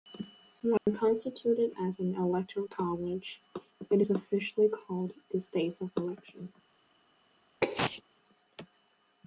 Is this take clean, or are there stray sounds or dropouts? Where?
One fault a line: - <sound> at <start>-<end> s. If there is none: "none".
- dropout at 0.8-0.9 s
- sneeze at 7.6-8.0 s